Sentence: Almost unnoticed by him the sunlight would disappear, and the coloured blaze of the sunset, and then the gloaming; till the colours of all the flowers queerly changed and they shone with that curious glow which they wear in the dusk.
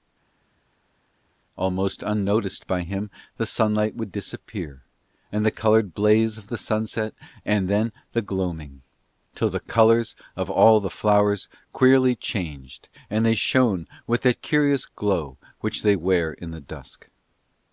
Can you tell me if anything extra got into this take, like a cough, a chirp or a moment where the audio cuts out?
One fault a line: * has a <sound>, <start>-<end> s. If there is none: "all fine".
all fine